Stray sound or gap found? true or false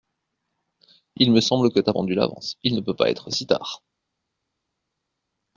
false